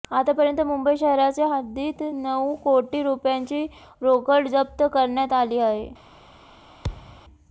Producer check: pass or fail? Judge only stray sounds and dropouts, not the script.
fail